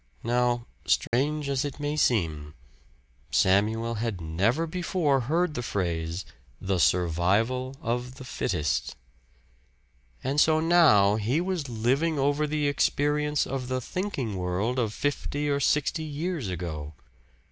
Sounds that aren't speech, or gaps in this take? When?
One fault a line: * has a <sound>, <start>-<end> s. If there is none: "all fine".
* has a dropout, 1.1-1.1 s